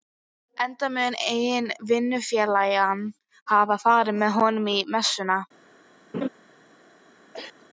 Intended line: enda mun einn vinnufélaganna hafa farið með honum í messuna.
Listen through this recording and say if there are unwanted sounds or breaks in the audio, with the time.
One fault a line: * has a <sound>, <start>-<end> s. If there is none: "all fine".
* has a laugh, 6.1-6.3 s
* has a cough, 7.3-7.7 s